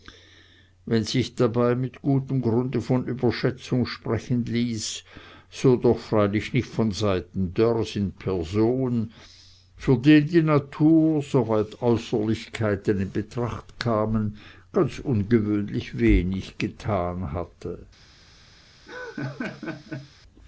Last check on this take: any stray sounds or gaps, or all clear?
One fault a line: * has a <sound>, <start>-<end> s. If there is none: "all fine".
* has a laugh, 18.9-20.1 s